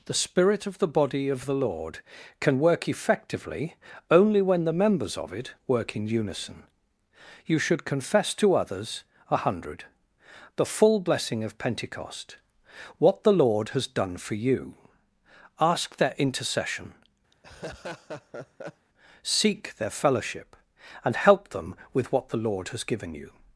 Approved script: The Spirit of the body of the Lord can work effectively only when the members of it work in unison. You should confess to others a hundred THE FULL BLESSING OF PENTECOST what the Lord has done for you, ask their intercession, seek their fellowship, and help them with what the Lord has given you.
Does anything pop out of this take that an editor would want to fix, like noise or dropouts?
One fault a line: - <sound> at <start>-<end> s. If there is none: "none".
- laugh at 17.3-18.9 s